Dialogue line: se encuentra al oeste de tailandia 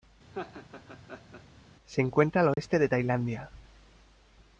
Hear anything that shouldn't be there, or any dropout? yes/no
yes